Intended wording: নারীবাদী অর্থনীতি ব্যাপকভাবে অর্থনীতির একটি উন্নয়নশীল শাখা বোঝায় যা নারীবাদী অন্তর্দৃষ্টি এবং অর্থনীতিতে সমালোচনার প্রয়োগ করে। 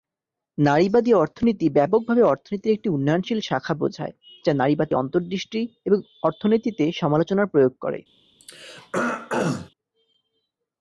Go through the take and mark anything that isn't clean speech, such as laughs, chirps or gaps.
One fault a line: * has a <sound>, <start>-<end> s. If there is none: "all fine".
* has a throat clearing, 8.4-9.7 s